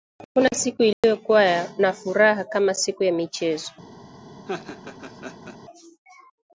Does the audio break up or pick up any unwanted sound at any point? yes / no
yes